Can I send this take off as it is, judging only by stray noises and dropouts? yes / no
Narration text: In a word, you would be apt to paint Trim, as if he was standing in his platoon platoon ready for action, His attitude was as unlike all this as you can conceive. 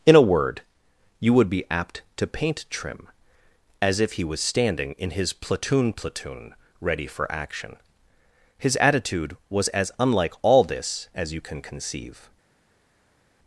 yes